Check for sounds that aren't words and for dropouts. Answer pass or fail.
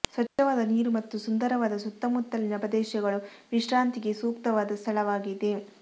fail